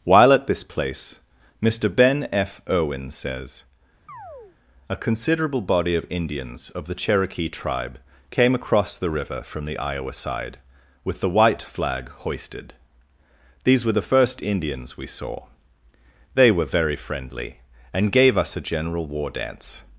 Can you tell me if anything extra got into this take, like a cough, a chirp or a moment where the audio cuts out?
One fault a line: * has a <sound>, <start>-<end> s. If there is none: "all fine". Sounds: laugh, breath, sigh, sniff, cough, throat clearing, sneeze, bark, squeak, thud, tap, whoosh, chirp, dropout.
* has a chirp, 4.1-4.6 s